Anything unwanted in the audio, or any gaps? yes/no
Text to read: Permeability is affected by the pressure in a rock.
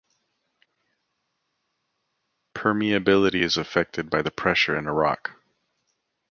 no